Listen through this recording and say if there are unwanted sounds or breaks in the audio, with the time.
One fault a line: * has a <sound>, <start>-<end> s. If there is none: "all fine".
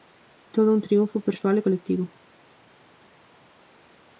all fine